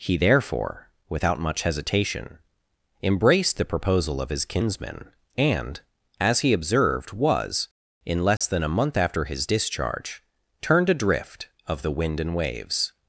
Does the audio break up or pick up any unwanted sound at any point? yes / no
yes